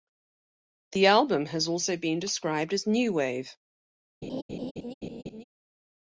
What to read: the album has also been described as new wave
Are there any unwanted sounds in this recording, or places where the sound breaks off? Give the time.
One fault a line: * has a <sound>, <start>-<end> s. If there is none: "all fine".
* has a laugh, 4.2-5.4 s